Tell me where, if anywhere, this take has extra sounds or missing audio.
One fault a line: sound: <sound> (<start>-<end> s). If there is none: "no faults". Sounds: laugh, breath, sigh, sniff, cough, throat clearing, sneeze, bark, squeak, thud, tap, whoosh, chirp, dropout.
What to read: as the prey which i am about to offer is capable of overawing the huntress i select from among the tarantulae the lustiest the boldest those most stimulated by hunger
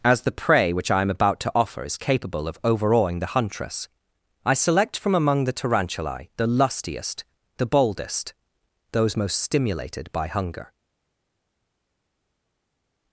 no faults